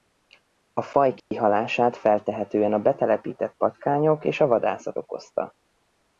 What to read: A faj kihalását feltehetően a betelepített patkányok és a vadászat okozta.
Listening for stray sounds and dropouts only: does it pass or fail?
fail